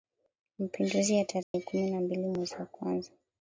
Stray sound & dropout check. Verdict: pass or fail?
fail